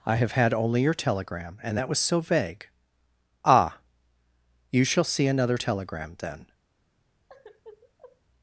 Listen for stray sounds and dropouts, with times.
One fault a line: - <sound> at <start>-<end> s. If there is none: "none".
- sigh at 7.3-8.2 s